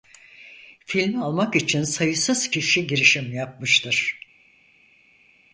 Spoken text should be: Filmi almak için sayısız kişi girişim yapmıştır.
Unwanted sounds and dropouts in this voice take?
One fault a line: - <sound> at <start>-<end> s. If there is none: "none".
none